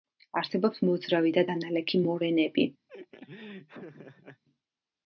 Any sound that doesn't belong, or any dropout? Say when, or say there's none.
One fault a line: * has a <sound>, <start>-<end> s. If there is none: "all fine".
* has a laugh, 2.9-4.4 s